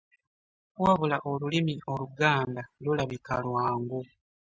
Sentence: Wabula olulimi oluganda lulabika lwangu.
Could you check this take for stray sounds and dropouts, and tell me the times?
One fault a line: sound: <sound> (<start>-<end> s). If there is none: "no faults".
no faults